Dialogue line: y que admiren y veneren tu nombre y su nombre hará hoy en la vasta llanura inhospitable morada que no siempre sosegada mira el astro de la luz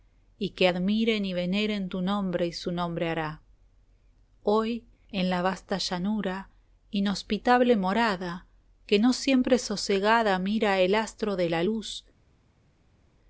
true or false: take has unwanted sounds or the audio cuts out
false